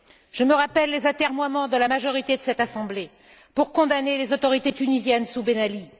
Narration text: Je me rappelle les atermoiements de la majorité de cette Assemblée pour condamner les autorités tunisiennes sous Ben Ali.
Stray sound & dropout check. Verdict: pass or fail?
pass